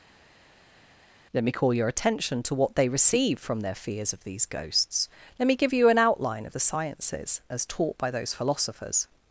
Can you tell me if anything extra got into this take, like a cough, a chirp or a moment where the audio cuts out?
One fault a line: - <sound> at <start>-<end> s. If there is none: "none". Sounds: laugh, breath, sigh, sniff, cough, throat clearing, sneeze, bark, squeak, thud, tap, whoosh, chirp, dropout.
none